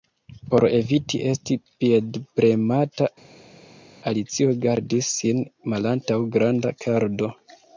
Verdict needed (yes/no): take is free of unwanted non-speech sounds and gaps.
yes